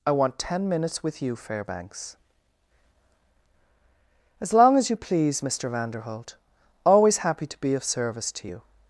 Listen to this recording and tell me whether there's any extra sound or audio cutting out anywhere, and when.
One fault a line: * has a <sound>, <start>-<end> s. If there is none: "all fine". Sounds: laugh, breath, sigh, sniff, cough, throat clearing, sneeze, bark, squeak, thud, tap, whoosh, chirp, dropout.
all fine